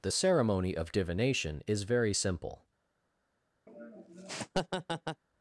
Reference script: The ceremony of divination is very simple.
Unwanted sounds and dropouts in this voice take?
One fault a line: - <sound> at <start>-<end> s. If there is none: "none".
- laugh at 3.7-5.2 s